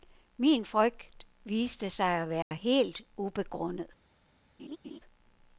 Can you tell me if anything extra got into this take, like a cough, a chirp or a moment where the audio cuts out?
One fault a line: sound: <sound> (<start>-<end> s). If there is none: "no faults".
sound: dropout (2.4-2.5 s)
sound: laugh (4.6-5.0 s)